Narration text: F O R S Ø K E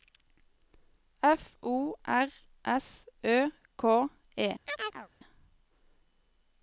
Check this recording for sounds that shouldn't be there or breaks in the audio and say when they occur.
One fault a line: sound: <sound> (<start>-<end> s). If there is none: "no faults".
sound: chirp (4.7-5.1 s)